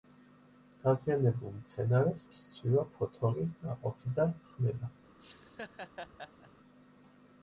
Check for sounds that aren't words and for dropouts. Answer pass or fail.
fail